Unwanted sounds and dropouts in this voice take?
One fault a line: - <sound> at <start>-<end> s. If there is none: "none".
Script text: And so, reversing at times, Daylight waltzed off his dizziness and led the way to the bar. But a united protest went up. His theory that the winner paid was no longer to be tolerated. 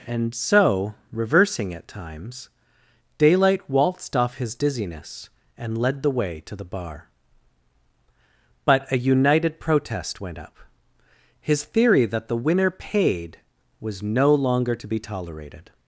none